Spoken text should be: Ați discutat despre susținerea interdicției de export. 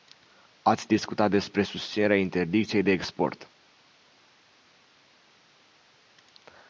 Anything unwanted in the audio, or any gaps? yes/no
no